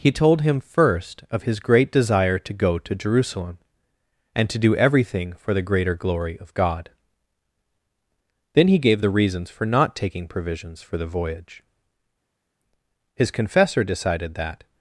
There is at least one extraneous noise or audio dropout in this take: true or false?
false